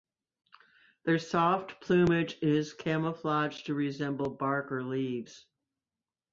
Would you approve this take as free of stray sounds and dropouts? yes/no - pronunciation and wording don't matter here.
yes